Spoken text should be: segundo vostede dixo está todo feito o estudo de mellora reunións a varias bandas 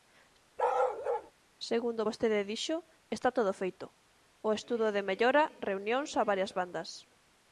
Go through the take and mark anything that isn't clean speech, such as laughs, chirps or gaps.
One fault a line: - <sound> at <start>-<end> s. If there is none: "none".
- bark at 0.6-1.3 s